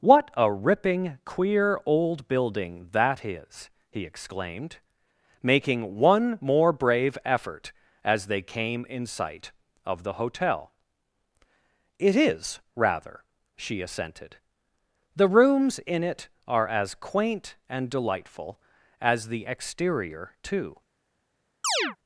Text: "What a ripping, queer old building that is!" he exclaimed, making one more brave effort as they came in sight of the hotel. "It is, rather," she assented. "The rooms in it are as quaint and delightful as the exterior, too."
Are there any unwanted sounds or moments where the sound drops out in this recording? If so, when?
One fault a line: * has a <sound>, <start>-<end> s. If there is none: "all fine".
* has a chirp, 21.6-22.0 s